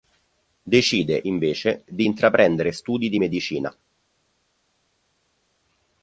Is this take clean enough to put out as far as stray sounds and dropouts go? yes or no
yes